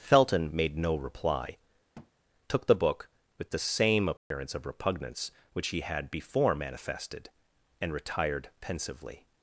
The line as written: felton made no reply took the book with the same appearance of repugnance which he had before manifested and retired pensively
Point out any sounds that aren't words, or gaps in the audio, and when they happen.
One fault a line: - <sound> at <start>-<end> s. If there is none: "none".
- thud at 1.9-2.1 s
- dropout at 4.2-4.3 s